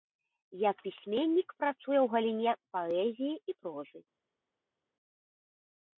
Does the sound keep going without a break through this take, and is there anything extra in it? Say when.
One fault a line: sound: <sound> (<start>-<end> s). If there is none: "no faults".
no faults